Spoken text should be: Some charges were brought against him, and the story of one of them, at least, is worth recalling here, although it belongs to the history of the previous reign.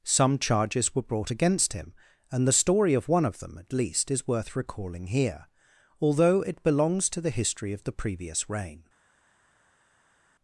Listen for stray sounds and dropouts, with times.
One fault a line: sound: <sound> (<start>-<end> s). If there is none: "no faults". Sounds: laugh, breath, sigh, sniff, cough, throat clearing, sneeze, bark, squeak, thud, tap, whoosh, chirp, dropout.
no faults